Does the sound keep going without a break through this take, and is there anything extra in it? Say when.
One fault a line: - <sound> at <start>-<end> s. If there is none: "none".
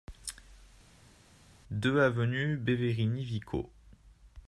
none